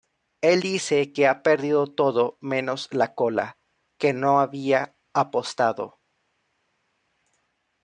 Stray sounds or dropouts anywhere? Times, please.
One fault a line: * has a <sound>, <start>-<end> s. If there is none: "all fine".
all fine